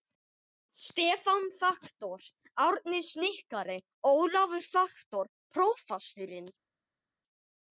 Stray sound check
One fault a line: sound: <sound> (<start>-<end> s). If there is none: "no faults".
no faults